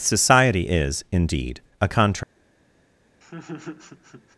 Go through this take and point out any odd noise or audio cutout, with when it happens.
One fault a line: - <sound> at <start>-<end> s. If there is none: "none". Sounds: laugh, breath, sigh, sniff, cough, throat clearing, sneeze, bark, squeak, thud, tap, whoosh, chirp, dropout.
- laugh at 3.2-4.4 s